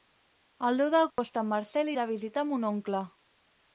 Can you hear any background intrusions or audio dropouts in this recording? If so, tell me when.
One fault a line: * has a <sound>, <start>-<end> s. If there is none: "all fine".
* has a dropout, 1.1-1.2 s